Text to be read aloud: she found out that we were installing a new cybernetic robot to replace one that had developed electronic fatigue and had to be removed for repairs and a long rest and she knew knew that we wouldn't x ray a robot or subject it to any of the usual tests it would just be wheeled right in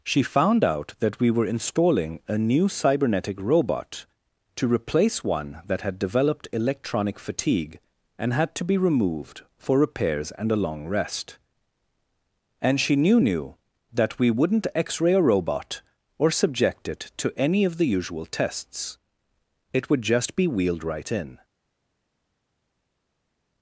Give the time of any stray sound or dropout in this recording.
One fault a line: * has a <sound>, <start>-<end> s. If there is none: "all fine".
all fine